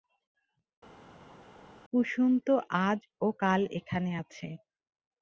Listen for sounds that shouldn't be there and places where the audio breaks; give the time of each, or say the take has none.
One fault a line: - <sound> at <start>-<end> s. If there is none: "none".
none